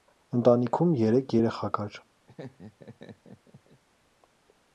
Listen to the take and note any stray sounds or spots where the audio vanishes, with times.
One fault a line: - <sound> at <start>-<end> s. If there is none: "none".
- laugh at 2.3-3.8 s